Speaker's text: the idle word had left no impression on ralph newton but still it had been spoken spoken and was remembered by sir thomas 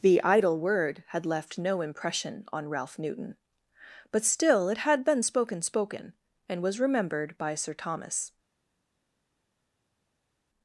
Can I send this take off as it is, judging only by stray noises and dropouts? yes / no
yes